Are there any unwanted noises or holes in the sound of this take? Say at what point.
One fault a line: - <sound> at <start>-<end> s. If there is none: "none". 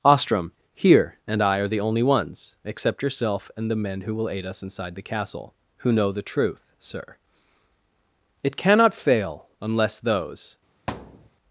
- thud at 10.9-11.3 s